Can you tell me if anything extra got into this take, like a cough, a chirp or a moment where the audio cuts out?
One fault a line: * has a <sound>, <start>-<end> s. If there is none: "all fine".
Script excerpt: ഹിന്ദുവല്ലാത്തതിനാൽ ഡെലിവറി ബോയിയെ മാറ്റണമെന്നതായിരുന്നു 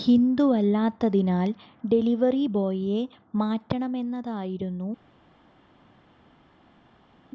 all fine